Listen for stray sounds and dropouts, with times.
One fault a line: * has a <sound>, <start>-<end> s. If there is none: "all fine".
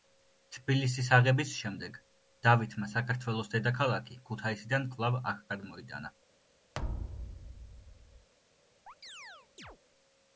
* has a thud, 6.7-8.3 s
* has a chirp, 8.9-9.8 s